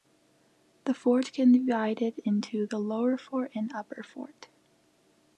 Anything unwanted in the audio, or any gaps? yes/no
no